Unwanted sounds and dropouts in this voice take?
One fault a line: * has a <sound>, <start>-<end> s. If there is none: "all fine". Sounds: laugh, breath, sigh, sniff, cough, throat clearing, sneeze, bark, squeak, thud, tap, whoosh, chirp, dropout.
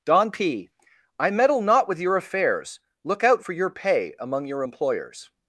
all fine